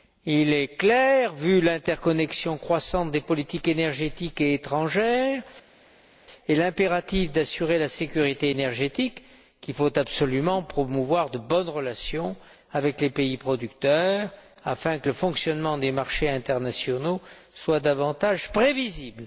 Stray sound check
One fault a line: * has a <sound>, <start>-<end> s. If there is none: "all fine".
all fine